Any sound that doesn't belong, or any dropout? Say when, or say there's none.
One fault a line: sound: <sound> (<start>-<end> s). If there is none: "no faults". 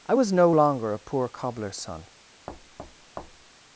sound: thud (2.5-3.5 s)